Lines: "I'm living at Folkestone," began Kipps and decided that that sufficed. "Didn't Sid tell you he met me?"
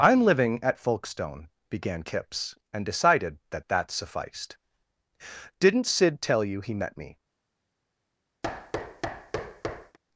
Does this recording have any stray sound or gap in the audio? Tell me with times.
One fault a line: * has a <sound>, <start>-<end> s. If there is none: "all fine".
* has a thud, 8.4-10.0 s